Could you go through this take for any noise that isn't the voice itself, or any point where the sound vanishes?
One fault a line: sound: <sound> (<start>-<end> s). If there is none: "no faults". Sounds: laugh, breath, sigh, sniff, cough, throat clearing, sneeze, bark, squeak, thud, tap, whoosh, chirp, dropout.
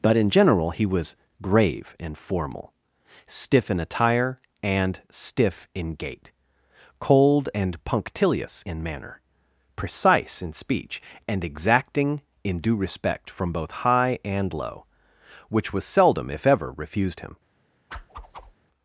sound: whoosh (17.9-18.5 s)